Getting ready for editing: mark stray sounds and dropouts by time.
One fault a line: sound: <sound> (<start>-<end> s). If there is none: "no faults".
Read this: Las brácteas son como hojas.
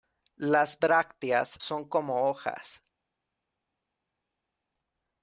no faults